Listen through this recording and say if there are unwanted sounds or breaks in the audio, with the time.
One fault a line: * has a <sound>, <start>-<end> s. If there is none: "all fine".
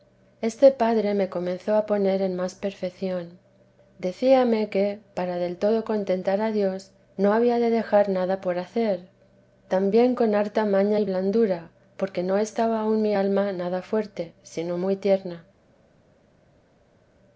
all fine